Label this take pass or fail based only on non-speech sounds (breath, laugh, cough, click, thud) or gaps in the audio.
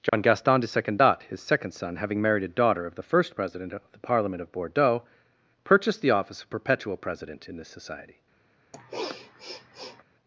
fail